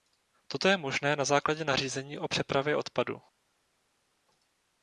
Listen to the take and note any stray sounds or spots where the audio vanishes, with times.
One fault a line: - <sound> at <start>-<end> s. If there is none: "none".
none